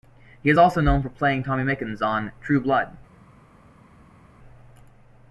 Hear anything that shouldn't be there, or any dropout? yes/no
no